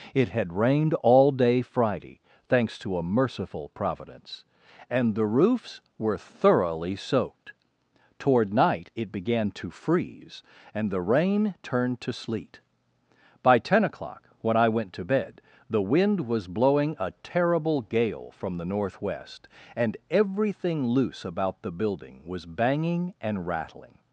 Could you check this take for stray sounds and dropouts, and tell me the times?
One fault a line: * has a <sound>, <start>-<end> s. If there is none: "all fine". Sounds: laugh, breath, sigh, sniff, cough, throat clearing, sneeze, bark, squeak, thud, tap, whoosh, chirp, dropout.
all fine